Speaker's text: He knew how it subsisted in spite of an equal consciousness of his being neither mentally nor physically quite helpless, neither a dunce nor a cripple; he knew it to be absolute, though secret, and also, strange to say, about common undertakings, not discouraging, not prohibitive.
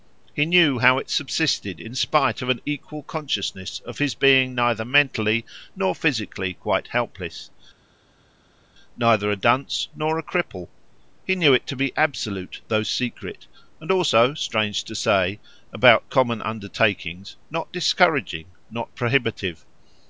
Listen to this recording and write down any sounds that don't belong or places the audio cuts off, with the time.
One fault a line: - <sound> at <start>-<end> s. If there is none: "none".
none